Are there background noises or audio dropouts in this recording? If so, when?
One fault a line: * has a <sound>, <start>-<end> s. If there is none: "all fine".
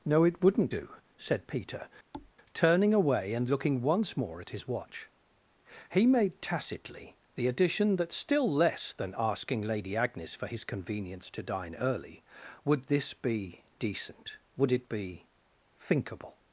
* has a thud, 2.1-2.3 s